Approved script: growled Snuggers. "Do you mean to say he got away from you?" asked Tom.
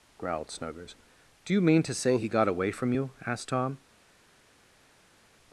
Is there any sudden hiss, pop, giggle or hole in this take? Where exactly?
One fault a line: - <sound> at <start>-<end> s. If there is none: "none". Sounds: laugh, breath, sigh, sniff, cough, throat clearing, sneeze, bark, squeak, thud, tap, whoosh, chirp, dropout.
none